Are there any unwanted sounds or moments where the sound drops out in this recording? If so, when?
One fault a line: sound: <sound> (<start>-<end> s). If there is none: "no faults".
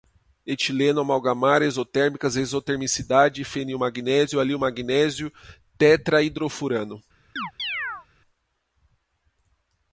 sound: chirp (7.4-8.1 s)